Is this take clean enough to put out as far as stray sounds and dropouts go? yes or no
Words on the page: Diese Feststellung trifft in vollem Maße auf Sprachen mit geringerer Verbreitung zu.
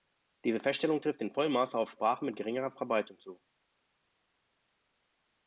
yes